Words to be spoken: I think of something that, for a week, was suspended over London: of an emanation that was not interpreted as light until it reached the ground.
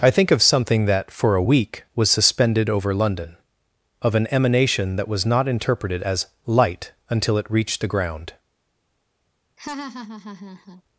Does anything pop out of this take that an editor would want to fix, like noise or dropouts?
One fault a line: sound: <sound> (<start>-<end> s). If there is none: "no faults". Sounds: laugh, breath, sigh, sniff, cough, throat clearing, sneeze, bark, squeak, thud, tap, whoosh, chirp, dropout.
sound: laugh (9.6-10.8 s)